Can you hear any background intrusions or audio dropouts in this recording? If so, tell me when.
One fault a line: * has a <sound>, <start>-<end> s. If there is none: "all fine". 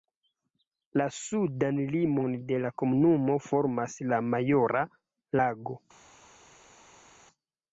all fine